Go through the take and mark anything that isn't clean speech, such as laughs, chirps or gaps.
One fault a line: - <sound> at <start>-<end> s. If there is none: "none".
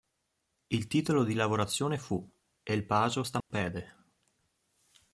- dropout at 3.4-3.5 s